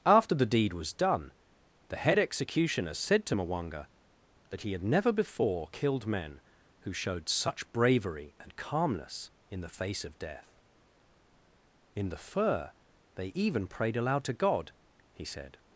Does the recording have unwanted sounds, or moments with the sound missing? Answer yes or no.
no